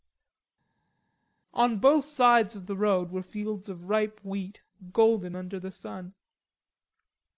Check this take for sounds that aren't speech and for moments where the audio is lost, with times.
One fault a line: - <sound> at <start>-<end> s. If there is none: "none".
none